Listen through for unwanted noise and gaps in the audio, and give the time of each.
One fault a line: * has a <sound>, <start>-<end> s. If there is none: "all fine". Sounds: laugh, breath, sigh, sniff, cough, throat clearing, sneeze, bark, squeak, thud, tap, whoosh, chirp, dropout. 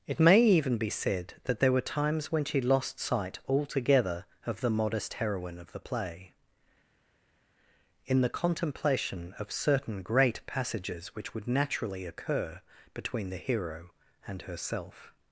all fine